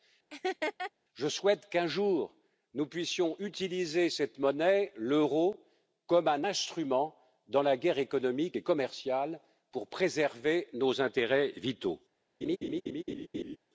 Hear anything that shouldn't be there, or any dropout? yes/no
yes